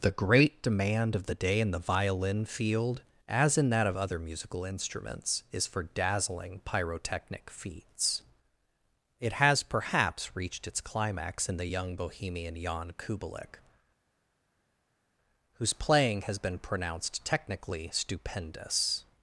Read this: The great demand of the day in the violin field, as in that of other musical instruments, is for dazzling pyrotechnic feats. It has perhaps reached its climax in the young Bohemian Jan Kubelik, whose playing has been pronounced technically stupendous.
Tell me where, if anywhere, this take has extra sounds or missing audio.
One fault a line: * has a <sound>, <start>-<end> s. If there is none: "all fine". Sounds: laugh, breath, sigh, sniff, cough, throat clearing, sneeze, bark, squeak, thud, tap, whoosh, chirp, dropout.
all fine